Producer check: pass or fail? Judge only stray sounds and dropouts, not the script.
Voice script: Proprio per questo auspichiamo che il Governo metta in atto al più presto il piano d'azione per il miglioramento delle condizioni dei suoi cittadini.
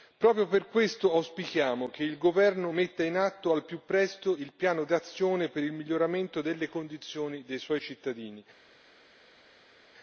pass